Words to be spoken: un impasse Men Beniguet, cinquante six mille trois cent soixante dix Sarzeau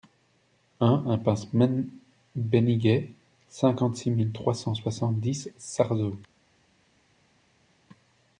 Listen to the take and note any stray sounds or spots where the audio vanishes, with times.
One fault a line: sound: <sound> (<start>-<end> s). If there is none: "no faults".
no faults